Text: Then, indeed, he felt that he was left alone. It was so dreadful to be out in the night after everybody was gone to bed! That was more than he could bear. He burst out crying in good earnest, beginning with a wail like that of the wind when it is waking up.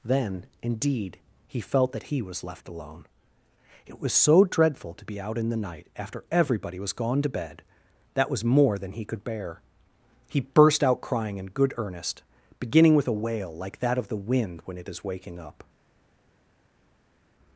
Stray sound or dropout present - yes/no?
no